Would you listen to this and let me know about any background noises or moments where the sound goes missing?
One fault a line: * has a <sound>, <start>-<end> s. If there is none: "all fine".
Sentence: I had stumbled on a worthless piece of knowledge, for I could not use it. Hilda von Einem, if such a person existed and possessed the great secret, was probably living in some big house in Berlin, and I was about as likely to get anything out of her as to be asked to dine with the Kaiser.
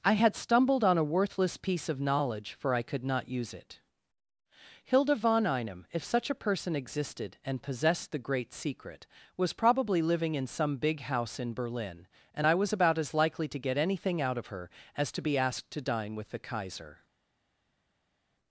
all fine